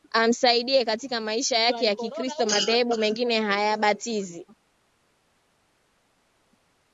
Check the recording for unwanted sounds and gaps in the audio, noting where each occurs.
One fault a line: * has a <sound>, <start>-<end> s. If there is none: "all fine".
all fine